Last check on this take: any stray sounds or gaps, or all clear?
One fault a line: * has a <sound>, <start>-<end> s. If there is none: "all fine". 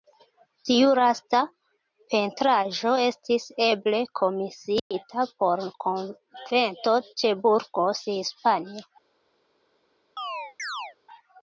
* has a dropout, 4.8-4.9 s
* has a chirp, 10.2-11.0 s